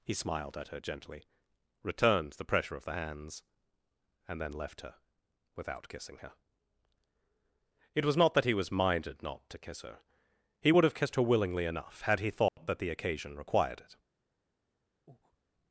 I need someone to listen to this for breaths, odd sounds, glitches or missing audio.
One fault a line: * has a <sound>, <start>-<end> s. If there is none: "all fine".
* has a dropout, 12.5-12.6 s
* has a breath, 15.1-15.4 s